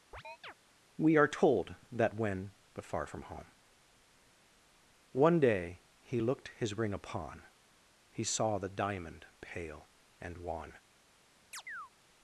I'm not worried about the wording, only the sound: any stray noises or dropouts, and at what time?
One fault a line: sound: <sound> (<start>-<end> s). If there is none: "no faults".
sound: chirp (0.1-0.5 s)
sound: chirp (11.5-11.9 s)